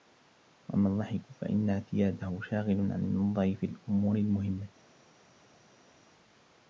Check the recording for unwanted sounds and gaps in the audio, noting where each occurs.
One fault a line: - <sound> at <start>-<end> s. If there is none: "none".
none